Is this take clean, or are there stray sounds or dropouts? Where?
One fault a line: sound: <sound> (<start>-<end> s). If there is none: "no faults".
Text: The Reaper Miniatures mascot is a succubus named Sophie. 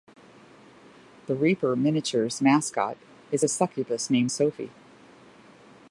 no faults